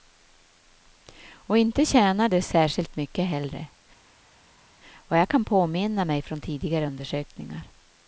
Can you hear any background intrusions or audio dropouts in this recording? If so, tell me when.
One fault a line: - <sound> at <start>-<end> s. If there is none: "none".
none